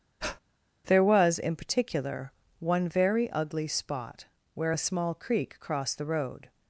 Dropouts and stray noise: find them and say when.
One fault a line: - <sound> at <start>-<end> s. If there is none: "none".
- breath at 0.2-0.4 s